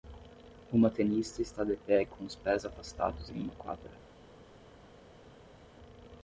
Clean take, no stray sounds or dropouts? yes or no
yes